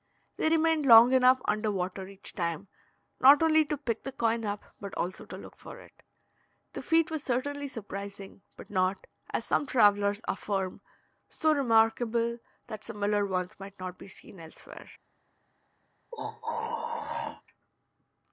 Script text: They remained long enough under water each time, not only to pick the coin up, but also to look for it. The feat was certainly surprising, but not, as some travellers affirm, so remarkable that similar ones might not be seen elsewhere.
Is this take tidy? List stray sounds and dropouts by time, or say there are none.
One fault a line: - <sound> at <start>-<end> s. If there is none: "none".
- throat clearing at 16.1-17.4 s